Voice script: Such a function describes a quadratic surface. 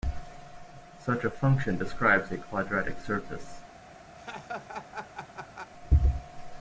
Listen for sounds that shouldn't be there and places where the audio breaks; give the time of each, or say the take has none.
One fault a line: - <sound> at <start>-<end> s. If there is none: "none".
- laugh at 4.2-5.7 s